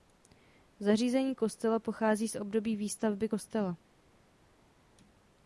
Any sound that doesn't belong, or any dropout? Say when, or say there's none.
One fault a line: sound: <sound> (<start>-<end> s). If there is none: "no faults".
no faults